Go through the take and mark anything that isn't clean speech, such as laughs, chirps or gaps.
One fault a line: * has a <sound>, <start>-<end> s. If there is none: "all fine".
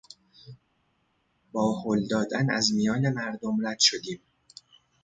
all fine